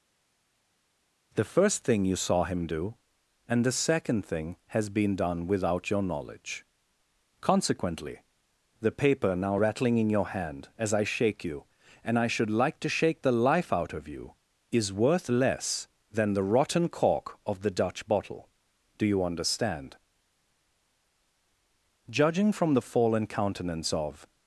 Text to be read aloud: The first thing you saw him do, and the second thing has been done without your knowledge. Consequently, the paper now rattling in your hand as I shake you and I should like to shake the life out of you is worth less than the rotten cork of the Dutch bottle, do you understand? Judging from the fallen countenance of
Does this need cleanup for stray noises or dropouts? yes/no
no